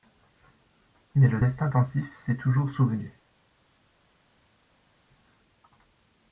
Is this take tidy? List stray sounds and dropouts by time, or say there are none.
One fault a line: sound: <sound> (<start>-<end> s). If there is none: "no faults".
no faults